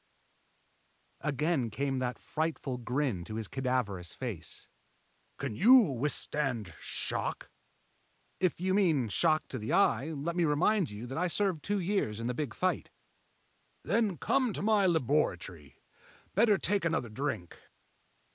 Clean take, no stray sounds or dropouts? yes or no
yes